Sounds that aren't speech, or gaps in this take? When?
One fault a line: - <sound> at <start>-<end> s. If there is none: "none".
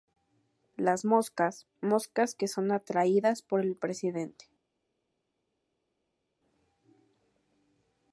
none